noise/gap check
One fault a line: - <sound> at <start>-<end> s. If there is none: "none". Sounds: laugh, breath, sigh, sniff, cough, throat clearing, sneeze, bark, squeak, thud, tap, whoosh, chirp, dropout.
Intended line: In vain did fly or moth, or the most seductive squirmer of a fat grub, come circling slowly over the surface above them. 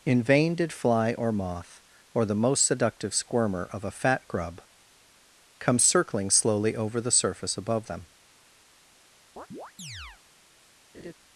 - chirp at 9.4-10.2 s
- laugh at 10.9-11.1 s